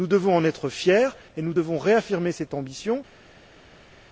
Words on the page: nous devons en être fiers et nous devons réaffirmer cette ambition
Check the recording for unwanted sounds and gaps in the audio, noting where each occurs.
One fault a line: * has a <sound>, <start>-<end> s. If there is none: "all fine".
all fine